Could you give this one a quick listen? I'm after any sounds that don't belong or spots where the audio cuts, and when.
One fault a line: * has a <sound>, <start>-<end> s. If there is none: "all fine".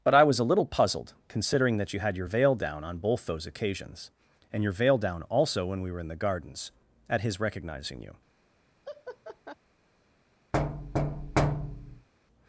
* has a laugh, 8.8-9.6 s
* has a thud, 10.5-12.1 s